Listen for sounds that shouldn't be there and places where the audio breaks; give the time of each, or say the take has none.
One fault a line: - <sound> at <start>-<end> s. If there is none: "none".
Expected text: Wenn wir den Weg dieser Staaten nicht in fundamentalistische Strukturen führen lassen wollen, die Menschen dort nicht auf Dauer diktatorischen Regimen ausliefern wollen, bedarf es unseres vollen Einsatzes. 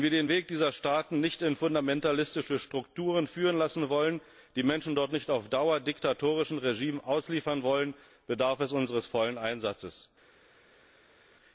none